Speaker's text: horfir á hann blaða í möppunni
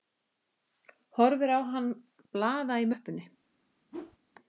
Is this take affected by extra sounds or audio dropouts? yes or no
yes